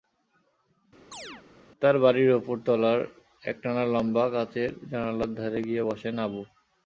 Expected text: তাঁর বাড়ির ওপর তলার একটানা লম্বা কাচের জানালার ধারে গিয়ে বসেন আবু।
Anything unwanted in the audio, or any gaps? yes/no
yes